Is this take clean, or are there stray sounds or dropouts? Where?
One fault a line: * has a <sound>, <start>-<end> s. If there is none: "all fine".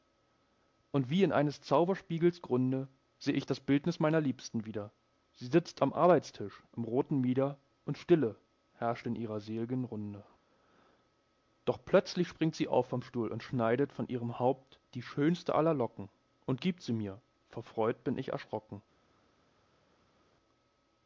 all fine